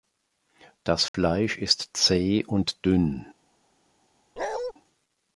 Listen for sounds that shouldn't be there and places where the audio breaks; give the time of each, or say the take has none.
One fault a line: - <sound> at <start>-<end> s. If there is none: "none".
- dropout at 1.1-1.1 s
- bark at 4.4-4.7 s